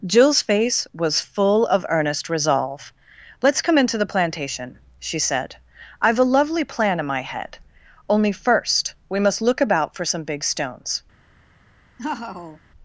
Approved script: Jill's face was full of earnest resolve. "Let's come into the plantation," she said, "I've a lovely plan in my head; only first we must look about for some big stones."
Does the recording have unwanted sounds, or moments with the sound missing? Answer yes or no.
yes